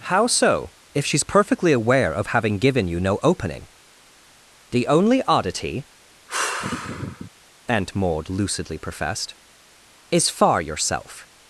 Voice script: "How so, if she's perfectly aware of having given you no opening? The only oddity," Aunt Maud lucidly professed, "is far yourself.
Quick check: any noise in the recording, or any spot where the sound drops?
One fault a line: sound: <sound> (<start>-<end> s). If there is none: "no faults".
sound: sigh (6.3-7.3 s)